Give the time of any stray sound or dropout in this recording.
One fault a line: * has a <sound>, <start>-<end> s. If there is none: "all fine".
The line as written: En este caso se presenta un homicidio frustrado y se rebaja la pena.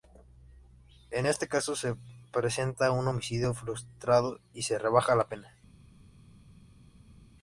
all fine